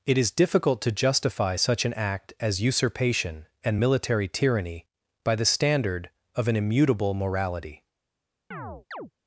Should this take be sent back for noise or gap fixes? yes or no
yes